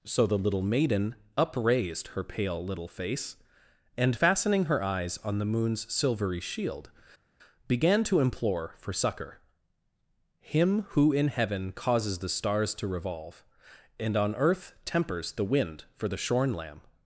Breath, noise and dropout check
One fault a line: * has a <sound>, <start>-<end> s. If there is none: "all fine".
all fine